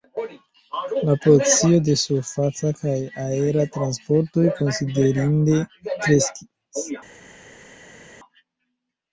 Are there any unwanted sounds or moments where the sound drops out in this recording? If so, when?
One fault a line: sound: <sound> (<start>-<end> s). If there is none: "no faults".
no faults